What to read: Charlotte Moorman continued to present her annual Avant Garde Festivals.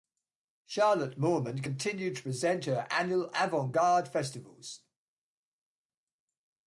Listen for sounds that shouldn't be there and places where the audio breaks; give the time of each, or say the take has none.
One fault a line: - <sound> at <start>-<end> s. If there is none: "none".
none